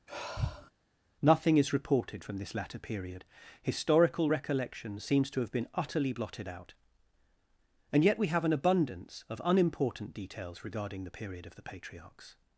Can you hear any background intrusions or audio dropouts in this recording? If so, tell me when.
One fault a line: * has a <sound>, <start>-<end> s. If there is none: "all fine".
* has a sigh, 0.1-0.7 s